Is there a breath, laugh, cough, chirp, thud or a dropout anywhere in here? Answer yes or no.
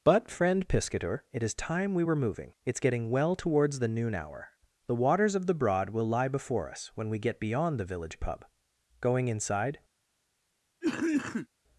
yes